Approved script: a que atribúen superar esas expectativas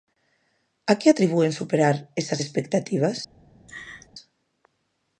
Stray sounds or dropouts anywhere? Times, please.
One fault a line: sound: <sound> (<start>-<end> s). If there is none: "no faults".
sound: laugh (3.7-4.1 s)